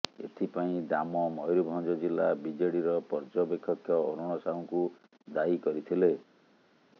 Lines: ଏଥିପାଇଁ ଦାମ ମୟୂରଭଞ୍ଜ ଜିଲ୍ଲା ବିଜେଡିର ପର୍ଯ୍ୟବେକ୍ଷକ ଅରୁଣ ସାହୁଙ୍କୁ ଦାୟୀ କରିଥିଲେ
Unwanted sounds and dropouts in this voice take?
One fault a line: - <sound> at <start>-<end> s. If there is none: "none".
none